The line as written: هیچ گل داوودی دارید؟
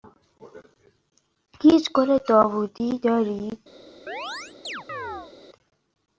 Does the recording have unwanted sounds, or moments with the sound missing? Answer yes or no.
yes